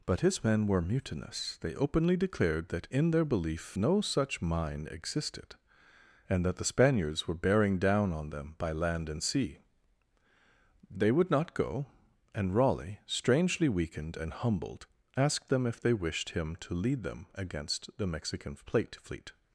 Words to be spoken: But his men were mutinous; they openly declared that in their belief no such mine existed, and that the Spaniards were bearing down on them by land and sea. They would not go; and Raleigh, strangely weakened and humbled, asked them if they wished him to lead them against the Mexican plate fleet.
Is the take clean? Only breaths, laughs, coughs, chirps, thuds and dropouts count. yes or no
yes